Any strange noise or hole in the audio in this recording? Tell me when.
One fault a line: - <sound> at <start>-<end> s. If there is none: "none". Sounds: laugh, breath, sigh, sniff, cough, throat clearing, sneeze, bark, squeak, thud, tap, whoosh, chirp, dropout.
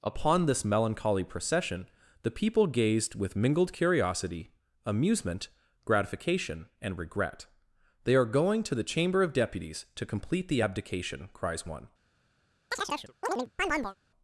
- chirp at 12.7-14.0 s